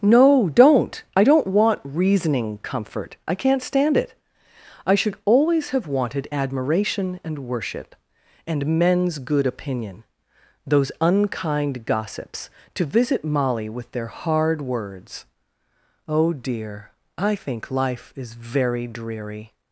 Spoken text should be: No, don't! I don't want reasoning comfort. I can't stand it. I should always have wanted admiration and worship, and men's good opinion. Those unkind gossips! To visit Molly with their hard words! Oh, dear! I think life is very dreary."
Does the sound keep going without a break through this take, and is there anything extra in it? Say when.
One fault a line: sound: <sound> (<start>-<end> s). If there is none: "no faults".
no faults